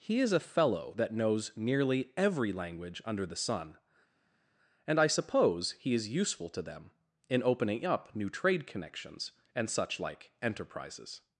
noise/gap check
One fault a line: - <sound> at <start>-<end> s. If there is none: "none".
none